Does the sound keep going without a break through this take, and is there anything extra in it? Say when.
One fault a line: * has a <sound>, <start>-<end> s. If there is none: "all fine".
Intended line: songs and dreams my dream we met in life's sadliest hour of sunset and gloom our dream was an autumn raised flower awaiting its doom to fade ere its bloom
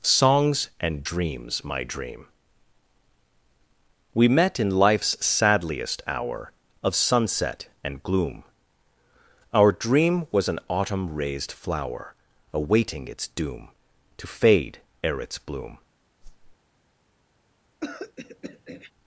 * has a whoosh, 16.2-16.6 s
* has a throat clearing, 17.8-18.9 s